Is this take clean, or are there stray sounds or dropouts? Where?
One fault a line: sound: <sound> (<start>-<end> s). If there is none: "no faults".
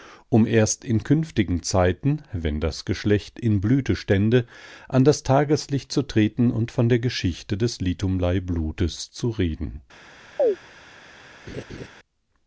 sound: chirp (10.4-10.6 s)
sound: laugh (11.5-11.9 s)